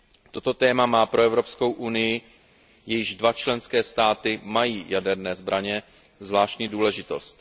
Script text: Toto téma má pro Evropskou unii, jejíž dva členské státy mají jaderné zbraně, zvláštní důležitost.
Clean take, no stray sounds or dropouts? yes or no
yes